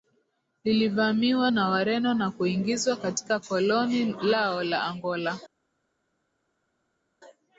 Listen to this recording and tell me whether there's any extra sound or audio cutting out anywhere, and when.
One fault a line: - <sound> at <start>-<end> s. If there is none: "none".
none